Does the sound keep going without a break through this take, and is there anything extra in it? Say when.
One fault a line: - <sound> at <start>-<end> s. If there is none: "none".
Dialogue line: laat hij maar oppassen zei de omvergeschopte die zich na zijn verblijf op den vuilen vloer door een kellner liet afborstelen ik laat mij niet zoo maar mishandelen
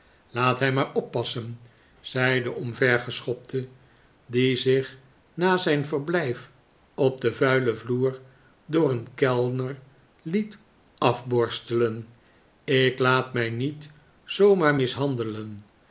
none